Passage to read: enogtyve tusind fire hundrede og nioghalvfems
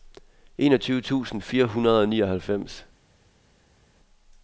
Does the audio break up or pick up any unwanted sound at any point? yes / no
no